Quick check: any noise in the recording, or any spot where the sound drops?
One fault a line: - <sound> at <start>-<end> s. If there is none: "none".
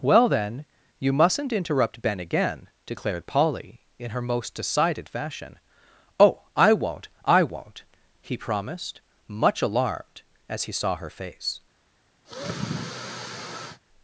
- sigh at 12.2-13.8 s